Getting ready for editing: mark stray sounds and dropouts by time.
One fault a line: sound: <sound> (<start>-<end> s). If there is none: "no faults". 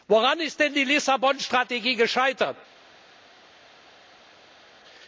no faults